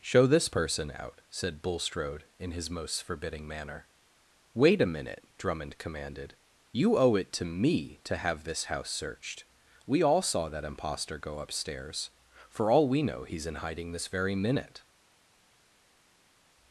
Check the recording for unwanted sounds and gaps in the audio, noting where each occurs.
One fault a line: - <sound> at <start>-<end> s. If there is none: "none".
none